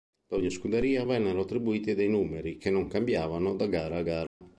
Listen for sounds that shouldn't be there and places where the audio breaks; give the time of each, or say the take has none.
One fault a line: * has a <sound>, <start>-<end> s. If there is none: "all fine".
* has a dropout, 4.3-4.4 s